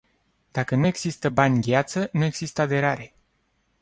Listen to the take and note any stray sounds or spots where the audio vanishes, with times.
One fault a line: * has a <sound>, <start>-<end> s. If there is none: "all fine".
all fine